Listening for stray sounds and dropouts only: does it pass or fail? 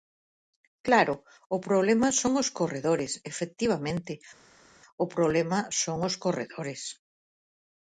pass